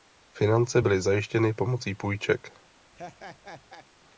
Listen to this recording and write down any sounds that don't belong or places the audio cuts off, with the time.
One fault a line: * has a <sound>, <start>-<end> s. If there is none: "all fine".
* has a laugh, 2.9-3.9 s